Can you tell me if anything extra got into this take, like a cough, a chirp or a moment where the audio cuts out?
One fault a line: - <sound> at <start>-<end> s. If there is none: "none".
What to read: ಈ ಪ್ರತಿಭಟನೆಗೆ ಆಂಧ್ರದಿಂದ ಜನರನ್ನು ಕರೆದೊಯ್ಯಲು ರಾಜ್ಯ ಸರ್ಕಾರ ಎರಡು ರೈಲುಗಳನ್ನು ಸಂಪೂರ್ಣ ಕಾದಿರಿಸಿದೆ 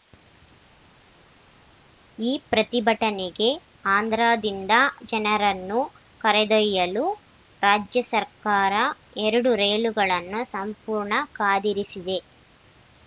none